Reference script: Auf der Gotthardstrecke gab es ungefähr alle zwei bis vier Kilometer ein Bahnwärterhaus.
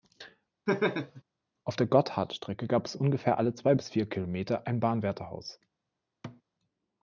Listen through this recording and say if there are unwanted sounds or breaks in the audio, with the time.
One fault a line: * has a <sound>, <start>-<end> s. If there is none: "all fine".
* has a laugh, 0.7-1.2 s
* has a thud, 6.2-6.4 s